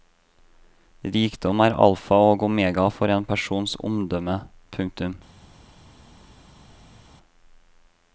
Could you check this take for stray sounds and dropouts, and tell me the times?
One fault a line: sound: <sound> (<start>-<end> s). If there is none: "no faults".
no faults